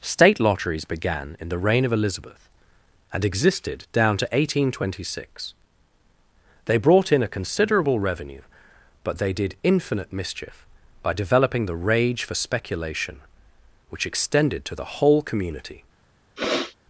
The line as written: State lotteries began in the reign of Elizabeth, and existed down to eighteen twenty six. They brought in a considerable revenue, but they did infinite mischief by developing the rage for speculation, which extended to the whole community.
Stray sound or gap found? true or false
true